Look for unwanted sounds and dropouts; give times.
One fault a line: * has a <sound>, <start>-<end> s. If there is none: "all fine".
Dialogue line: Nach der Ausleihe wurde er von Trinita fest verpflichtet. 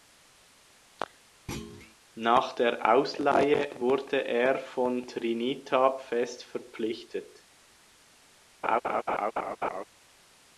* has a thud, 1.5-2.0 s
* has a laugh, 8.6-9.8 s